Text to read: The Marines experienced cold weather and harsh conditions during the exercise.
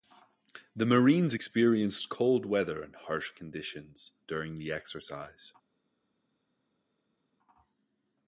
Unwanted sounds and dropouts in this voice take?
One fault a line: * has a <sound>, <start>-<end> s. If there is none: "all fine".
all fine